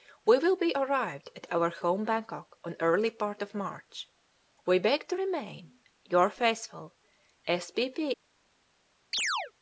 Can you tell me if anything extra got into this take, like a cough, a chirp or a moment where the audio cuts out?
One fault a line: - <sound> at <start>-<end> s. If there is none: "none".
- chirp at 9.1-9.5 s